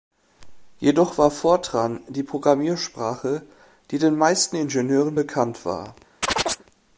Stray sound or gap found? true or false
true